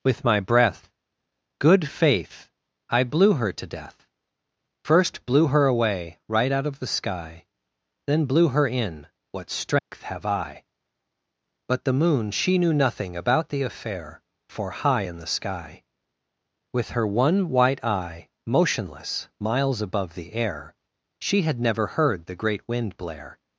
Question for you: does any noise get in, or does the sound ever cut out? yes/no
yes